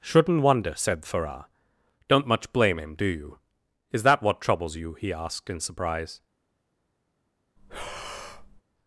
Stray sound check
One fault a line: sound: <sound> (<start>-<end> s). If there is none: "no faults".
sound: breath (7.6-8.6 s)